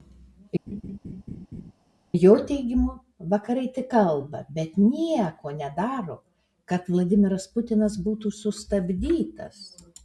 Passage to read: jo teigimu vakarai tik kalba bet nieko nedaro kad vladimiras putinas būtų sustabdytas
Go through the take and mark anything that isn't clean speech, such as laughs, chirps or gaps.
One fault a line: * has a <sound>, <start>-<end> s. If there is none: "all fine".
* has a laugh, 0.7-1.7 s